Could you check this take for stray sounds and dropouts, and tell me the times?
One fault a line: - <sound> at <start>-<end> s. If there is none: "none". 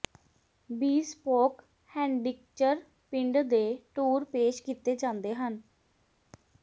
none